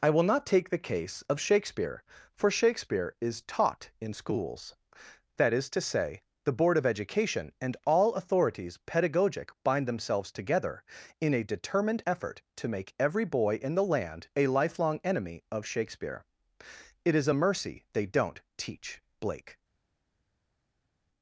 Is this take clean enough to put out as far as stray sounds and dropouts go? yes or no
yes